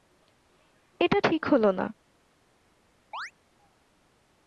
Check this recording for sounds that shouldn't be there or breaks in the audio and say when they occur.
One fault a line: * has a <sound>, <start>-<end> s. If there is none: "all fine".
* has a chirp, 3.1-3.3 s